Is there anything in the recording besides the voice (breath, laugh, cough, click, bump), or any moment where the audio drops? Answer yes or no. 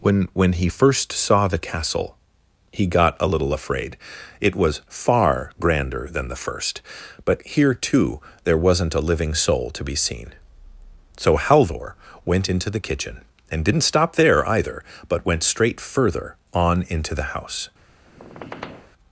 yes